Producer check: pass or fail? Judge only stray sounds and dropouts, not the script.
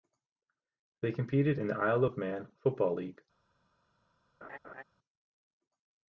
fail